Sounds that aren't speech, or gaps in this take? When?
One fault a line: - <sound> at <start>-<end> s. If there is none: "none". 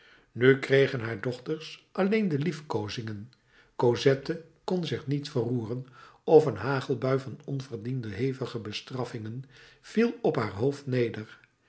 none